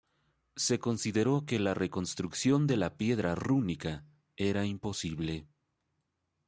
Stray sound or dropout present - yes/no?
no